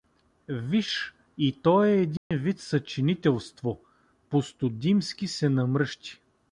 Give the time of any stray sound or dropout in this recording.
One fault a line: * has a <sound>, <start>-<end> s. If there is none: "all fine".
* has a dropout, 2.2-2.3 s